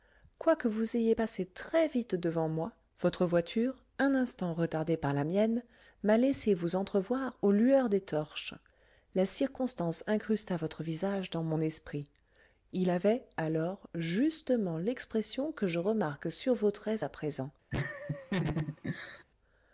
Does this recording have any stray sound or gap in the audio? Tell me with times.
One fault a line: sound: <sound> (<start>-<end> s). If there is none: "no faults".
sound: laugh (17.7-19.2 s)